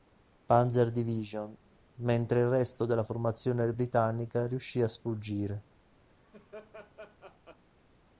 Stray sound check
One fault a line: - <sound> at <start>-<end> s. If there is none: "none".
- laugh at 6.1-7.6 s